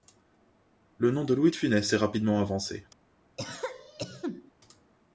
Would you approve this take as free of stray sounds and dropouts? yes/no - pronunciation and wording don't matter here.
no